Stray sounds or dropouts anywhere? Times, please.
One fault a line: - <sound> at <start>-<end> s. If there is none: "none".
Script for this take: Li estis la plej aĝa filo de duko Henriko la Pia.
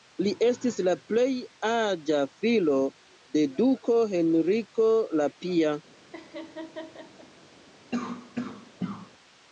- laugh at 6.1-7.3 s
- cough at 7.9-9.1 s